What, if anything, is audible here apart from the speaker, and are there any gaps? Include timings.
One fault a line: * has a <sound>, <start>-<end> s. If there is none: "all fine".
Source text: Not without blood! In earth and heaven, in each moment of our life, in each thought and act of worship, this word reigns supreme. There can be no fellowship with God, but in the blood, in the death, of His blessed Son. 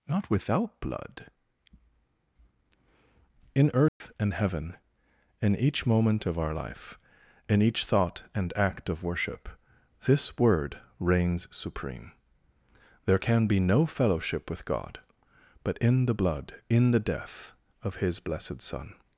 * has a dropout, 3.9-4.0 s